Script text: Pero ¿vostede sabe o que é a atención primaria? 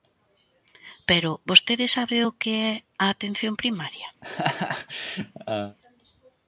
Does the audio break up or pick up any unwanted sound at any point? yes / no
yes